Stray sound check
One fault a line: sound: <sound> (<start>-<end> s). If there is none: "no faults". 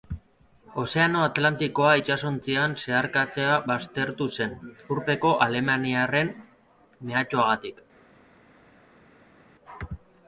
no faults